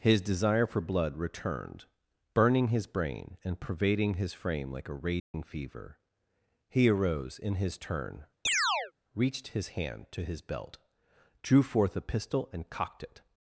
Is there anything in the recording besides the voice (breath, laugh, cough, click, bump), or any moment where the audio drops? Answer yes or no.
yes